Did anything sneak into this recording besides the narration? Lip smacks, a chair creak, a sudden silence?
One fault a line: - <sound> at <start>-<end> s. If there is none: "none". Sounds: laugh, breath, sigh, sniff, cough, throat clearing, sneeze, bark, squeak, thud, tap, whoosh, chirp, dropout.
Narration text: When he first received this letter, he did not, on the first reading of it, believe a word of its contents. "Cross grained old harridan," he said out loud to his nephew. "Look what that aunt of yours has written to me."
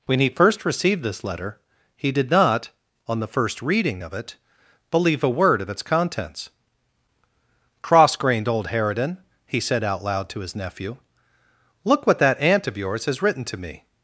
none